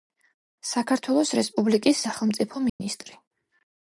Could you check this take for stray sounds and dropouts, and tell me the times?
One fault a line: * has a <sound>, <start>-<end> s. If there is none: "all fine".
* has a dropout, 2.7-2.8 s